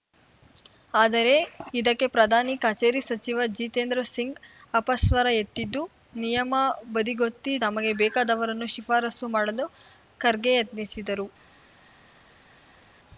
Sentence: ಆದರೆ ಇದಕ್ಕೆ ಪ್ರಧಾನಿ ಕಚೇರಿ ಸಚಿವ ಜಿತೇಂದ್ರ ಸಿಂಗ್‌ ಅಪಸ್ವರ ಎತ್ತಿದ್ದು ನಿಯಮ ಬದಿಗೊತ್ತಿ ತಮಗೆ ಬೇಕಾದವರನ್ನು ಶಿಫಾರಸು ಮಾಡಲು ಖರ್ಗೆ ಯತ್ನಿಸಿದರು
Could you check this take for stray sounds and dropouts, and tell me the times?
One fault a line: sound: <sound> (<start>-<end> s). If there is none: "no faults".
no faults